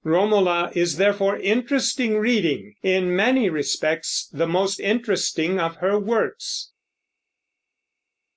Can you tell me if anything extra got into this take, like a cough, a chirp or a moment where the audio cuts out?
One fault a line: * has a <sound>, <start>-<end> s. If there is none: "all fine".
all fine